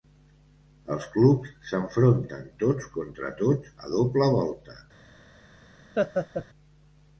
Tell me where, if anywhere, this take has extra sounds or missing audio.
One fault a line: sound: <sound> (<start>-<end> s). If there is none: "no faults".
sound: laugh (6.0-6.5 s)